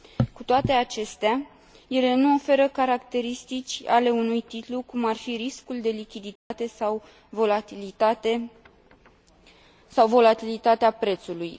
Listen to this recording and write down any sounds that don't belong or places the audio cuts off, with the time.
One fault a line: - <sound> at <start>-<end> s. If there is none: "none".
- dropout at 6.4-6.5 s